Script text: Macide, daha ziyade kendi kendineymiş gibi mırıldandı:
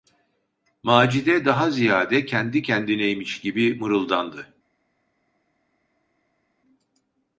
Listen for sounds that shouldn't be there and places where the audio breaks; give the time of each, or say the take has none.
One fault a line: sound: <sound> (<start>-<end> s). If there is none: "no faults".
no faults